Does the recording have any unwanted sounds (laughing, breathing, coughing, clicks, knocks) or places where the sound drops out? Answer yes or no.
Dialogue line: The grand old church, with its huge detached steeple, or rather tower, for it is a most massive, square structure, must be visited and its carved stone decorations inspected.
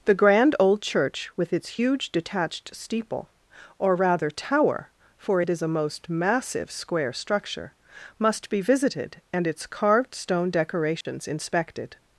yes